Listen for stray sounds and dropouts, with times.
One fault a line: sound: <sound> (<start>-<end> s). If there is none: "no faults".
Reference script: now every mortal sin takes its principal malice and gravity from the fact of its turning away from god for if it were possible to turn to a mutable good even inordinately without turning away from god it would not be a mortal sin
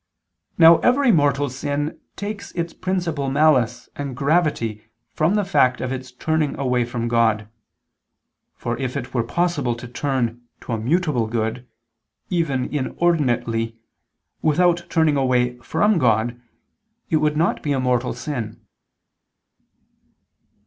no faults